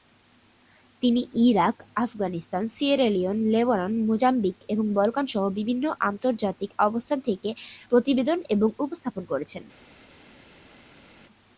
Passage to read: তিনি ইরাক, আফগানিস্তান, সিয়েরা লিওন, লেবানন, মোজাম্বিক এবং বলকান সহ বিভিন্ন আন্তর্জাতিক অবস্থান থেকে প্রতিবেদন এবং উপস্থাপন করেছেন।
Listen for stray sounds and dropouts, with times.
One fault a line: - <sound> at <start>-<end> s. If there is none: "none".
none